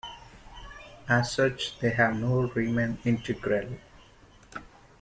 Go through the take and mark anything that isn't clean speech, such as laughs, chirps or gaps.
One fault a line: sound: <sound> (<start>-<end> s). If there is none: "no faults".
no faults